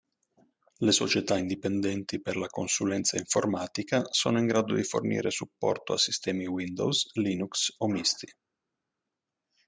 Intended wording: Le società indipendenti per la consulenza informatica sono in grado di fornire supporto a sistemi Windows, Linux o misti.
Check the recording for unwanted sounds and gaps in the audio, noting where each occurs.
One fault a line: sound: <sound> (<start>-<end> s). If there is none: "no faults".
no faults